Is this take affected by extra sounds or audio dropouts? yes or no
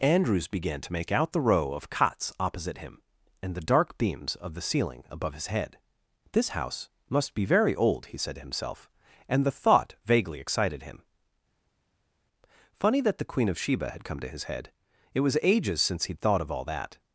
no